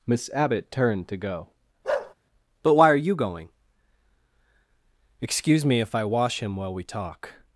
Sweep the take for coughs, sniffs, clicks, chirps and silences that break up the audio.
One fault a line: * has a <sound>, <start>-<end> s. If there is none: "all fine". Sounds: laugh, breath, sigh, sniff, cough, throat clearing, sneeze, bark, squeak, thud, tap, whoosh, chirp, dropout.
* has a bark, 1.8-2.1 s